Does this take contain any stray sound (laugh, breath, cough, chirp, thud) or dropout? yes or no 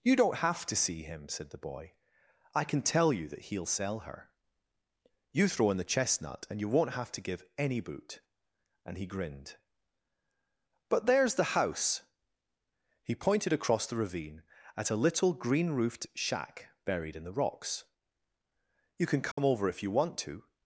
yes